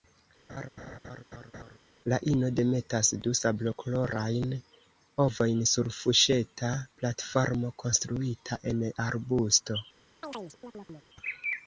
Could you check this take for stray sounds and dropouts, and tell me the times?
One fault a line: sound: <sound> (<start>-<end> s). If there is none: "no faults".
sound: laugh (0.5-1.8 s)
sound: chirp (10.2-11.1 s)